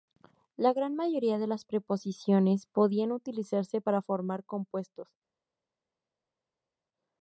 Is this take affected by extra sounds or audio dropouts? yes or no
no